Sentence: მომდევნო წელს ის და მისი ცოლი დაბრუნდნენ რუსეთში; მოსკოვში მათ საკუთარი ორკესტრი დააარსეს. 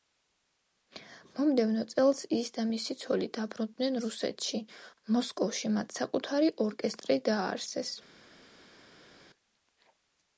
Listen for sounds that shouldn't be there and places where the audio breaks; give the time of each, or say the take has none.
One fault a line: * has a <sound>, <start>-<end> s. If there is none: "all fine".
all fine